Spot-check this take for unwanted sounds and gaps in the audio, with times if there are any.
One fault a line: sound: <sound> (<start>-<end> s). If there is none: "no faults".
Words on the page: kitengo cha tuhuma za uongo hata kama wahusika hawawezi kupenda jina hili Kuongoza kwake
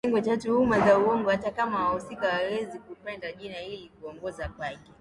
no faults